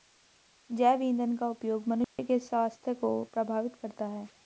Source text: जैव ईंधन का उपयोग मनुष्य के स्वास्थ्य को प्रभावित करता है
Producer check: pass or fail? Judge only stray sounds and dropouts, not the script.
fail